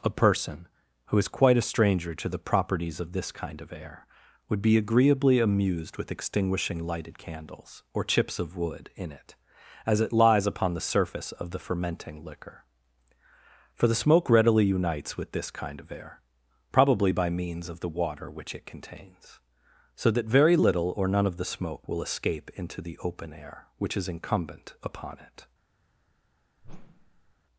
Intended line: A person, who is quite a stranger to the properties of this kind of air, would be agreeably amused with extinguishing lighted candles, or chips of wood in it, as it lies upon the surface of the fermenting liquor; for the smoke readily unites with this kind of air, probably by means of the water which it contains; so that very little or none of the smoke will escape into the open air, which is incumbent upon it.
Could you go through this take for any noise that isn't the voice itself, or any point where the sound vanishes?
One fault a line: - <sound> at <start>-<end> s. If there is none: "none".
- whoosh at 26.6-27.4 s